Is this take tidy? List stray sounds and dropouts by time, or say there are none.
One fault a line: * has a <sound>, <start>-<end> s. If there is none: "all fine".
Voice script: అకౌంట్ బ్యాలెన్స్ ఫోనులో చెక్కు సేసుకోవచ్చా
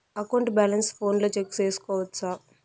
all fine